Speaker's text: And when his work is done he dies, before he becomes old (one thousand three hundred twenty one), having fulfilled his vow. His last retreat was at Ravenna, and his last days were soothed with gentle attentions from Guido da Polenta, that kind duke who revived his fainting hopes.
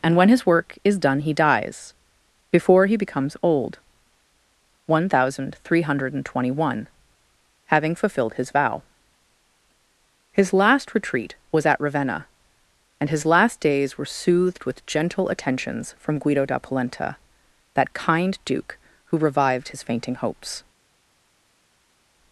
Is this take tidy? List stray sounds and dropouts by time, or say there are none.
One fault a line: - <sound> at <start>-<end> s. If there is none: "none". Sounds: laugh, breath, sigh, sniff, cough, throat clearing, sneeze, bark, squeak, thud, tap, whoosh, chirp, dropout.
none